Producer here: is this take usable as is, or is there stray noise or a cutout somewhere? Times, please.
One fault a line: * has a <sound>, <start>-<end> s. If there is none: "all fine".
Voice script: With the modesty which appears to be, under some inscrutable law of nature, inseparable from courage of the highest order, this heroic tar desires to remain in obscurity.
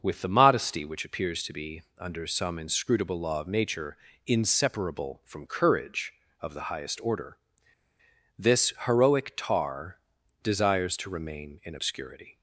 all fine